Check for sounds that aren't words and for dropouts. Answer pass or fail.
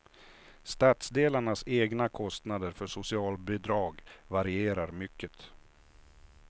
pass